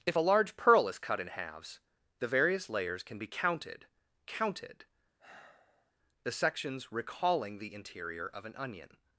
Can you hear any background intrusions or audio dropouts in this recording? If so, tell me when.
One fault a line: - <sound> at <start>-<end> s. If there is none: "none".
- sigh at 5.2-5.9 s